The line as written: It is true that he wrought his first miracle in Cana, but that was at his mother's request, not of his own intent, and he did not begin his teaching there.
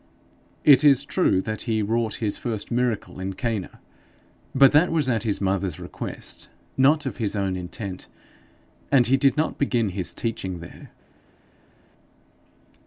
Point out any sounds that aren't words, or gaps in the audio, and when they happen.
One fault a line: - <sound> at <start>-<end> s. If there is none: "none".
none